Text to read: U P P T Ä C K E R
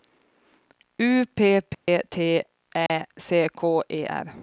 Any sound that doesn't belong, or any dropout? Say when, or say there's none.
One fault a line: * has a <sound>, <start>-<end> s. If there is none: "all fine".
* has a dropout, 1.7-1.9 s
* has a dropout, 2.9-2.9 s